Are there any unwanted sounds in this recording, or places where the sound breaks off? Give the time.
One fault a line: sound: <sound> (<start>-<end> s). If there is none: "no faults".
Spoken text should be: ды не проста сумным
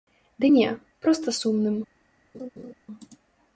sound: laugh (2.3-2.7 s)